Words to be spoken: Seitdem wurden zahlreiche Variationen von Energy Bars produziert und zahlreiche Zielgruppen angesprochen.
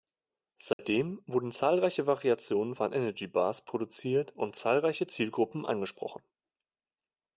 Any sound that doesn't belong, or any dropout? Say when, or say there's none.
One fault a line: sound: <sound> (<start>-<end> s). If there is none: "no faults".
sound: dropout (0.7-0.8 s)